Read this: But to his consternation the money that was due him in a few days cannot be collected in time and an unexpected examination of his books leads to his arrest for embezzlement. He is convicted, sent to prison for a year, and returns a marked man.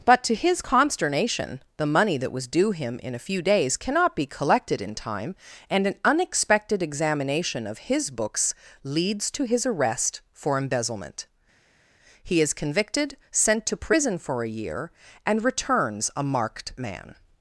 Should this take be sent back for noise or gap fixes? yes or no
no